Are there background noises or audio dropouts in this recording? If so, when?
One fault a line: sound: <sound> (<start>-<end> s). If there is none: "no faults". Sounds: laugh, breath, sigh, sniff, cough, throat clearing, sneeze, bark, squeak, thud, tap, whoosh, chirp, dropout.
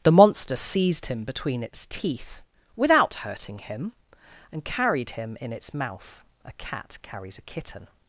no faults